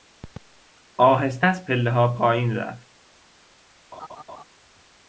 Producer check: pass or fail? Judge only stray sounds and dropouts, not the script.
fail